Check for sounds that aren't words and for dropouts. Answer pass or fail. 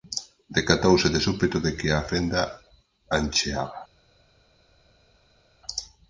pass